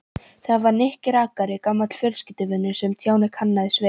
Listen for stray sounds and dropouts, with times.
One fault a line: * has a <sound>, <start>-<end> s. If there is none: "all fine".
all fine